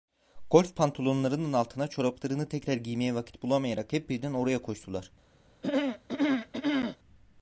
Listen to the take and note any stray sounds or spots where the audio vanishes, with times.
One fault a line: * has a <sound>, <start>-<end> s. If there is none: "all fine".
* has a throat clearing, 5.6-7.0 s